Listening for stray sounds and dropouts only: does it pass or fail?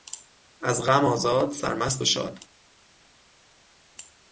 pass